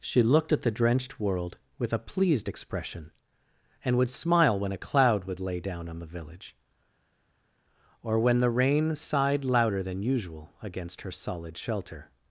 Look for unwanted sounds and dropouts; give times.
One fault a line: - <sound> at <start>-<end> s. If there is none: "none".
none